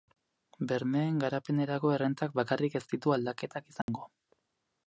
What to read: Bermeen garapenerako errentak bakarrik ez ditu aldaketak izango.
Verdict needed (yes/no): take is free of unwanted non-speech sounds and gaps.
no